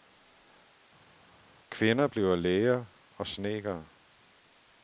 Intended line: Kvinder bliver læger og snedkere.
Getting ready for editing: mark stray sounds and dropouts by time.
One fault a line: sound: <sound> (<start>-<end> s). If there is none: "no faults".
no faults